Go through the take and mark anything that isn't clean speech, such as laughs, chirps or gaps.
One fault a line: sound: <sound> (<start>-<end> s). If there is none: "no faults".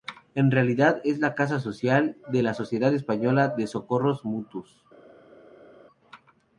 no faults